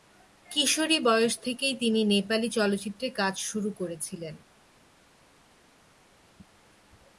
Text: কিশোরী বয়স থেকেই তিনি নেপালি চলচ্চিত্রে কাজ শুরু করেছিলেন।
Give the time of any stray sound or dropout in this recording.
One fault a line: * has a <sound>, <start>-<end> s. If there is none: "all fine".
all fine